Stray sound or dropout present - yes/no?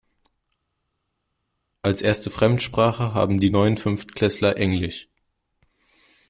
no